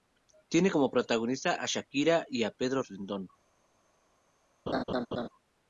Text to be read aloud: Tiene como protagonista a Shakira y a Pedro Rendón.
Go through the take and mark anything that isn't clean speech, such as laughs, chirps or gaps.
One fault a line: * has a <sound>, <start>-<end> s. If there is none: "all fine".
* has a laugh, 4.7-5.3 s